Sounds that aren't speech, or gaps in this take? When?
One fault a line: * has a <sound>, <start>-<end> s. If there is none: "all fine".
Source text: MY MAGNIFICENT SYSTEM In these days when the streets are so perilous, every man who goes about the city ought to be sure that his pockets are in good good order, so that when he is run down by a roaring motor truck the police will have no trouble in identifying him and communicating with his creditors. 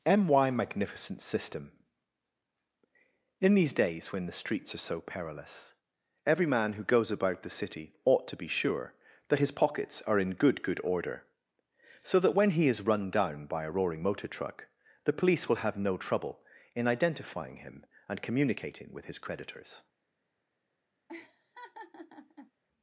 * has a laugh, 21.1-22.5 s